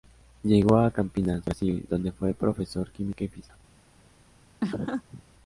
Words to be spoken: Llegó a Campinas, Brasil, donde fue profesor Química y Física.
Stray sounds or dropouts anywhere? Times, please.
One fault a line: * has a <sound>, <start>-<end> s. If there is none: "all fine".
* has a laugh, 4.6-5.2 s